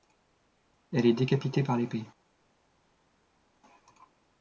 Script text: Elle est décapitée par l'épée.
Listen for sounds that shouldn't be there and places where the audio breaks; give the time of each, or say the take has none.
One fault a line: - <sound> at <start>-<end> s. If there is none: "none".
none